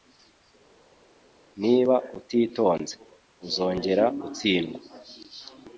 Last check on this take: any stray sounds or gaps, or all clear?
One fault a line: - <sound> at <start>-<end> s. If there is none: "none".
none